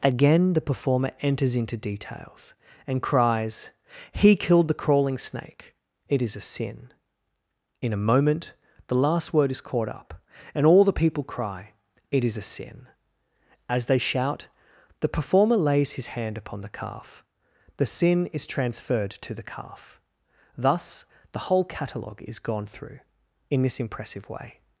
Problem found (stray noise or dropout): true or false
false